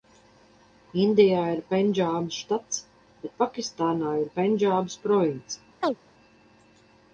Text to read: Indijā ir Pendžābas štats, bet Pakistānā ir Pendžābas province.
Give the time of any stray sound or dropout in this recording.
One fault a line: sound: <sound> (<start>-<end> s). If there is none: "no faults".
sound: chirp (5.8-6.0 s)